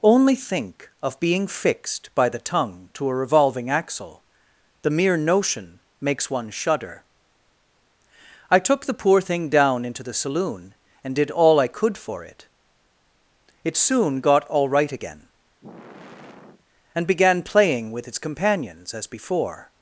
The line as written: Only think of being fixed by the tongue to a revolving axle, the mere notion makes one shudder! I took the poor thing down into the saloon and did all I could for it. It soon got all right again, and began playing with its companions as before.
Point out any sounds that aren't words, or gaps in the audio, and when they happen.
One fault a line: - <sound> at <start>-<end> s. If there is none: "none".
- sigh at 15.6-16.7 s